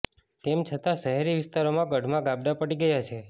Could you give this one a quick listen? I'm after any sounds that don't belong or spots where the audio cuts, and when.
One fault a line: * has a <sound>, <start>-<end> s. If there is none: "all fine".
all fine